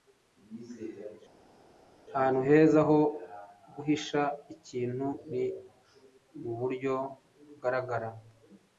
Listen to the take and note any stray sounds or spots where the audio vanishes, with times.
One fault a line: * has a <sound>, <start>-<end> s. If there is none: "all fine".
all fine